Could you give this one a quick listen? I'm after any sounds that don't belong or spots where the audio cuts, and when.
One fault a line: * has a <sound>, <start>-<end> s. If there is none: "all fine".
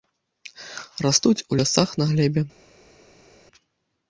all fine